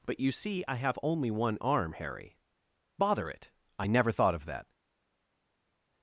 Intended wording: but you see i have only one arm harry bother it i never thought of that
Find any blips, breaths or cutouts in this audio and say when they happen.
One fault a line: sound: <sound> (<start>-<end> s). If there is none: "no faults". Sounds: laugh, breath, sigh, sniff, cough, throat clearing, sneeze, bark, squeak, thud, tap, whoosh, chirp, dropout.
no faults